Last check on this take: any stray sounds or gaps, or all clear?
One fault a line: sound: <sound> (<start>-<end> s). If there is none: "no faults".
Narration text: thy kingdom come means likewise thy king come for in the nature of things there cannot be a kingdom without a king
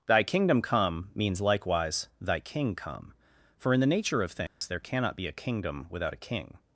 sound: dropout (4.5-4.6 s)